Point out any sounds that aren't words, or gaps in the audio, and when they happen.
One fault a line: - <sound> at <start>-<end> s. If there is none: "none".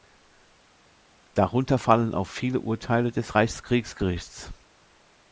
none